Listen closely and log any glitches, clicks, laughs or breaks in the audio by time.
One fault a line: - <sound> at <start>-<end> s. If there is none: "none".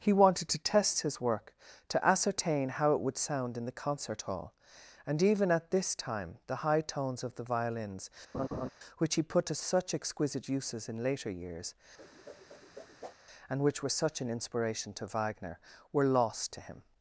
- laugh at 8.3-8.7 s
- whoosh at 12.0-13.1 s